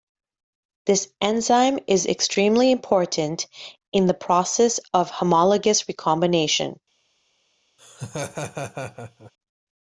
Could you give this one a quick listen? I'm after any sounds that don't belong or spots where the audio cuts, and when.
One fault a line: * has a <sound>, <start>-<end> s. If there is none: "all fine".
* has a laugh, 7.8-9.3 s